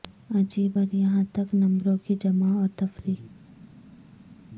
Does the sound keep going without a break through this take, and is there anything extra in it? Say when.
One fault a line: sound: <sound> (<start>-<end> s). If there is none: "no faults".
no faults